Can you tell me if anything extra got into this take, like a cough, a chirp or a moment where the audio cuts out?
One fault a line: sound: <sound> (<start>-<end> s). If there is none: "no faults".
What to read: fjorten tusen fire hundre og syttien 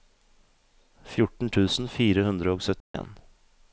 sound: dropout (2.8-2.9 s)